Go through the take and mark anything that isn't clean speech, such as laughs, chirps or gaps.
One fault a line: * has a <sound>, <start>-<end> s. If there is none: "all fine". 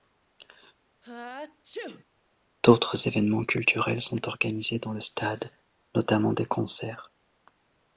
* has a sneeze, 1.0-2.0 s